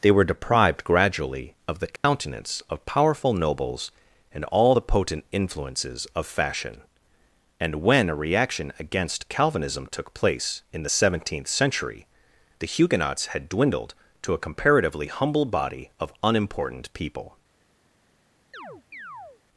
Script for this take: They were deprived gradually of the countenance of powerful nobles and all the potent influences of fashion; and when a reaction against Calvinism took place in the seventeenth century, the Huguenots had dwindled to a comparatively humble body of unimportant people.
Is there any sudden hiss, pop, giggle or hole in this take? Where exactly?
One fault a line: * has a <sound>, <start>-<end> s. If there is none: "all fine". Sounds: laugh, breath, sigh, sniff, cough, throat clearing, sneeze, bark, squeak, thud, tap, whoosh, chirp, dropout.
* has a dropout, 2.0-2.0 s
* has a chirp, 18.5-19.4 s